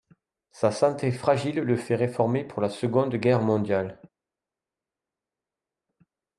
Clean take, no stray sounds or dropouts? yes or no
yes